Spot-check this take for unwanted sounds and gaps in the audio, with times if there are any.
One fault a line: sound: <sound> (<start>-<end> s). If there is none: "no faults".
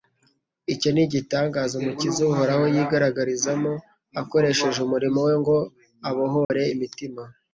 sound: dropout (6.4-6.5 s)